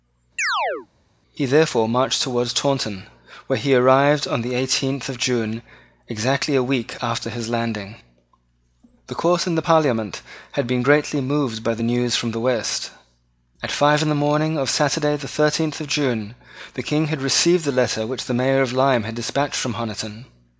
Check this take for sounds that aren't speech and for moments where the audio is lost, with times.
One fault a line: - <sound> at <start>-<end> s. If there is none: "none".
- chirp at 0.4-0.9 s